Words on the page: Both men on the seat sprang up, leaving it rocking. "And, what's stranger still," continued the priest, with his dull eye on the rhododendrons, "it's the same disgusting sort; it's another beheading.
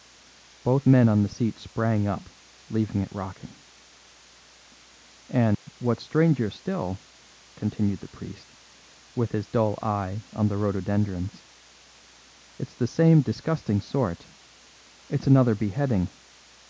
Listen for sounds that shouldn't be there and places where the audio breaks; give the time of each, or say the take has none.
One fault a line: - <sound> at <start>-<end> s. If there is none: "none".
- dropout at 5.5-5.7 s